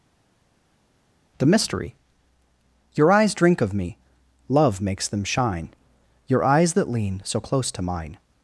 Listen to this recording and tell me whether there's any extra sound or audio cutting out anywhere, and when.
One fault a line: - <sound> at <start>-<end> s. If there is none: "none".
none